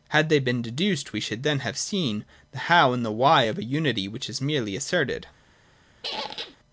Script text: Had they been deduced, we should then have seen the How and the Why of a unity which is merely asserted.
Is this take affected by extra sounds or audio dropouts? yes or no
yes